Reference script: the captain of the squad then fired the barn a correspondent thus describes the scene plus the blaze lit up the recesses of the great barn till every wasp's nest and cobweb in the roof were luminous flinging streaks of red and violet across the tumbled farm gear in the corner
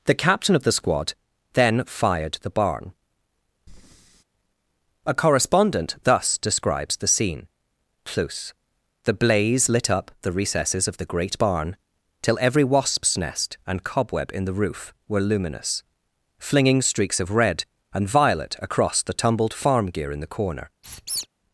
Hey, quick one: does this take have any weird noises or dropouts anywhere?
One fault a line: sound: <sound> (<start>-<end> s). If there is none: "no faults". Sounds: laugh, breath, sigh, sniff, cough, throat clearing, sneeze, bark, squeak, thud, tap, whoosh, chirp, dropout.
sound: breath (3.7-4.2 s)
sound: squeak (20.8-21.3 s)